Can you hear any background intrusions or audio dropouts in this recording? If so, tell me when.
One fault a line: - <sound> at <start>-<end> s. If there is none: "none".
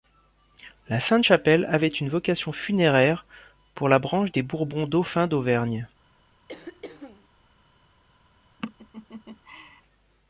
- throat clearing at 6.5-7.3 s
- laugh at 8.6-9.8 s